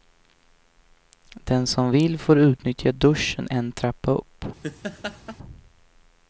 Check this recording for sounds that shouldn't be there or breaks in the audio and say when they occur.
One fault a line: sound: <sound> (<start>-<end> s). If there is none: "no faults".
sound: laugh (4.6-5.4 s)